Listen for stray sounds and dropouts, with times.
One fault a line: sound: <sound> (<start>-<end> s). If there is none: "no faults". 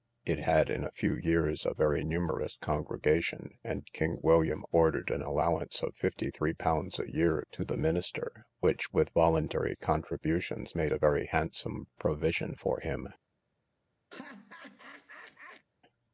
sound: laugh (14.1-15.7 s)